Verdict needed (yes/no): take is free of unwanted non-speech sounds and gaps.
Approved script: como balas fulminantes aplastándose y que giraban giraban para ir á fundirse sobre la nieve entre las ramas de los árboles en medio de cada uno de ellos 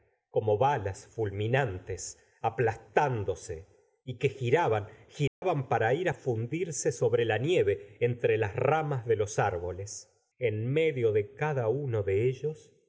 no